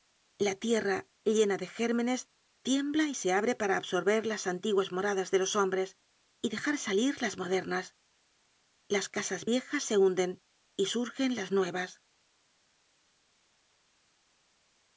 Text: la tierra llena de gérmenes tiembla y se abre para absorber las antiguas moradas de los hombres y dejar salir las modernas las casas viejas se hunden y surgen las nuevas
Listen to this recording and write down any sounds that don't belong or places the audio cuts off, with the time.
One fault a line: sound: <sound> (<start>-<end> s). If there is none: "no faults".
no faults